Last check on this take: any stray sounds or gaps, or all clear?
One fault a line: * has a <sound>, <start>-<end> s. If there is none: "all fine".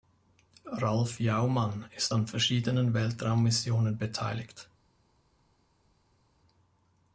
all fine